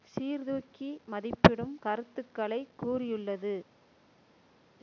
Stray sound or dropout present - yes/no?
no